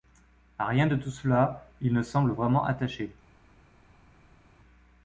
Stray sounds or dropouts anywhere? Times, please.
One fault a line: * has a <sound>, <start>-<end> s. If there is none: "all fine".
all fine